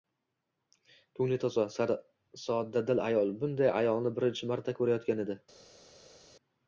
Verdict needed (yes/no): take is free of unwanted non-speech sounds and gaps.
yes